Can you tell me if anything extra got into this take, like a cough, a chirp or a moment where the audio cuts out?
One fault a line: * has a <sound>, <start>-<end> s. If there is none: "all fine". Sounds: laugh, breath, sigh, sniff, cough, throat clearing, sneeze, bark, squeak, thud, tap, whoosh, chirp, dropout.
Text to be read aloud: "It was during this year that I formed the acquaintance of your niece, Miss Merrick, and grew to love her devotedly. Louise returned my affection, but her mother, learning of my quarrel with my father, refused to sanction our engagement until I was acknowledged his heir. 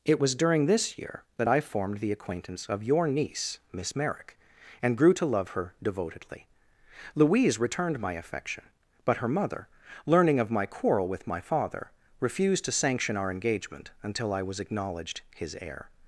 all fine